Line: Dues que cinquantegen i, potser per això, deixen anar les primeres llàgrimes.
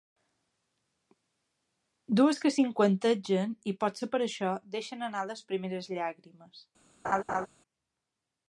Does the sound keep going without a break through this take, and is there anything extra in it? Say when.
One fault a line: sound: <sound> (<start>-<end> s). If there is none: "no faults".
sound: laugh (7.0-7.5 s)